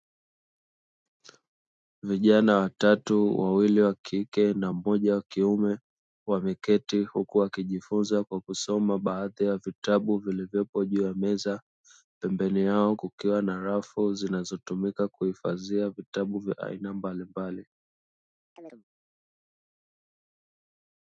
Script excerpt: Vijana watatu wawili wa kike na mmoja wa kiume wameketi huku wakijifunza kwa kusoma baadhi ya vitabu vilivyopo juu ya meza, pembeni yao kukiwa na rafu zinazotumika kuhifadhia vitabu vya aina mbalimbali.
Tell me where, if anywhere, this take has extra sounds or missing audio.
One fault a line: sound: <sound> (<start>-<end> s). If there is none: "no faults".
sound: chirp (18.6-18.8 s)